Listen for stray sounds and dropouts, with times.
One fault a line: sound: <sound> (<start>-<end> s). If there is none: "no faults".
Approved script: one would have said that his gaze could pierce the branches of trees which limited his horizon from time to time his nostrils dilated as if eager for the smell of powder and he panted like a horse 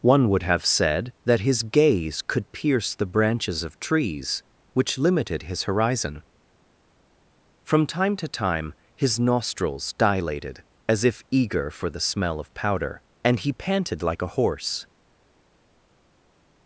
no faults